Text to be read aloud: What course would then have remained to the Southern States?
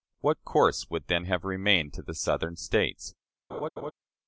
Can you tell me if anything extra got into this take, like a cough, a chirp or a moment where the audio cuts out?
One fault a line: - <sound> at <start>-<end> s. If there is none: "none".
- laugh at 3.5-3.9 s